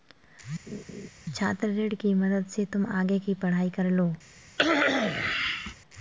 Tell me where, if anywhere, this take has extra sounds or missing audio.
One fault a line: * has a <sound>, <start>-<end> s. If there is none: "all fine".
* has a laugh, 0.7-1.1 s
* has a cough, 4.6-5.7 s